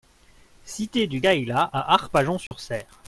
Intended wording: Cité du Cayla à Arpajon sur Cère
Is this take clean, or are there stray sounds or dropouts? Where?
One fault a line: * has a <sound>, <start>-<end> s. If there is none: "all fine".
* has a dropout, 2.5-2.5 s